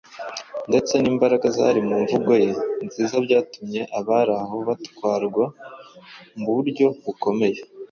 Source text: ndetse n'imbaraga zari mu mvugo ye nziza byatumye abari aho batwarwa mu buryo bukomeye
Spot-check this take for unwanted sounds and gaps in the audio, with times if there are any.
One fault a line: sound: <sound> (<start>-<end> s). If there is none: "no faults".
no faults